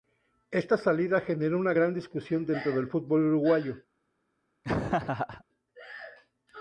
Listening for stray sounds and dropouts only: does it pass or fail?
fail